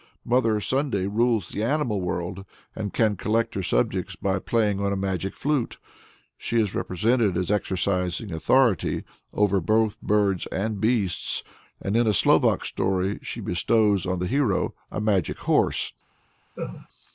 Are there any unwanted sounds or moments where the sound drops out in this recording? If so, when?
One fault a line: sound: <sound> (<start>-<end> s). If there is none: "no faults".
sound: laugh (16.6-16.9 s)